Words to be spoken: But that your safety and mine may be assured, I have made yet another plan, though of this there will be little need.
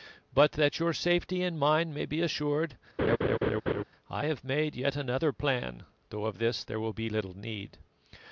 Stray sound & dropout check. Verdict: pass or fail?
fail